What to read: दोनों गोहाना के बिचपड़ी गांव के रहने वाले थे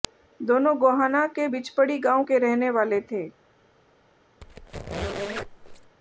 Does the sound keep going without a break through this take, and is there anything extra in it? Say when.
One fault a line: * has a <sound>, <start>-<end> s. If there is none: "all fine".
* has a squeak, 4.4-6.0 s